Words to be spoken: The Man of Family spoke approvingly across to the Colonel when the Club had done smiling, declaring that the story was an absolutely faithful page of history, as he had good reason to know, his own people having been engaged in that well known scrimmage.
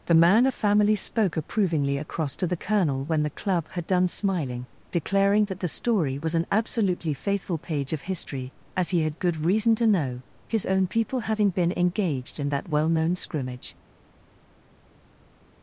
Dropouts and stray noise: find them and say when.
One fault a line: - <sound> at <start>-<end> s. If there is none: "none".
none